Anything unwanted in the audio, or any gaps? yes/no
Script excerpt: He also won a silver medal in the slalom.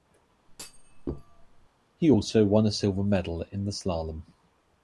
yes